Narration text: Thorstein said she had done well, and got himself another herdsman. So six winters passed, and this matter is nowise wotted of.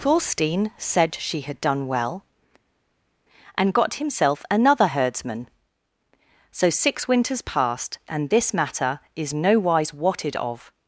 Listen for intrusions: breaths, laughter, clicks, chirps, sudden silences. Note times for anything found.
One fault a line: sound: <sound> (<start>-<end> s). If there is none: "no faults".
no faults